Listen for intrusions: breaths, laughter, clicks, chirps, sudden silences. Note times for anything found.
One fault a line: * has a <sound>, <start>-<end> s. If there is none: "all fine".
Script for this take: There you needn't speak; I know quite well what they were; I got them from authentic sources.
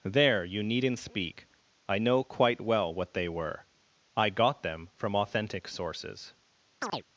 * has a chirp, 6.8-7.0 s